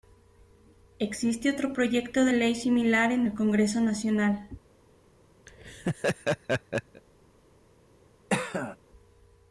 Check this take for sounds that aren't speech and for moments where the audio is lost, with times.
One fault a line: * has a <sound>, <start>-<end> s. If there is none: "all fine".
* has a laugh, 5.5-7.0 s
* has a cough, 8.3-8.8 s